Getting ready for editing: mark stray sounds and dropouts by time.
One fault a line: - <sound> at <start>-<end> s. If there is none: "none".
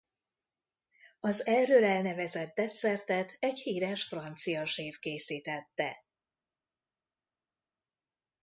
none